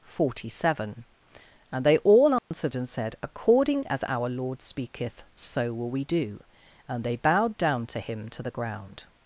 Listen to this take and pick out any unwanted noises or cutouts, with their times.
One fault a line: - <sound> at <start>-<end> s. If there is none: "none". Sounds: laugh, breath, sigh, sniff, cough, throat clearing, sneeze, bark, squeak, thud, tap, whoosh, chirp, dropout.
- dropout at 2.4-2.5 s